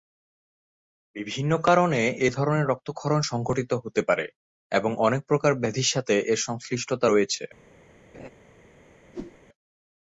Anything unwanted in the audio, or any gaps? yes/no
yes